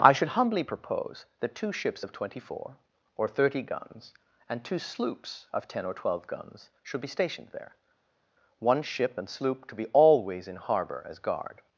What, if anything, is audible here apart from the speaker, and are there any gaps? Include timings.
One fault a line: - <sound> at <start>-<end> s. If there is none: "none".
none